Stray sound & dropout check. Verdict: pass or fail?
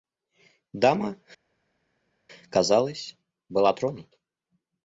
pass